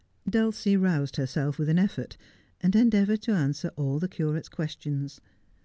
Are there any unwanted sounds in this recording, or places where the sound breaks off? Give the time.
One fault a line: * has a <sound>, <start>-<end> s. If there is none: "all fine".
all fine